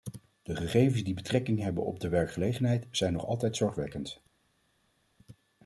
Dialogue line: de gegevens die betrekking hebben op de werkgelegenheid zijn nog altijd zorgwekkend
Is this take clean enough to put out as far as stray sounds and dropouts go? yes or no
yes